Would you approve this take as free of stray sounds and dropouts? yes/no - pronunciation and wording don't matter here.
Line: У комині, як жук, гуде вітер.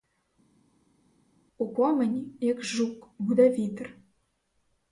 yes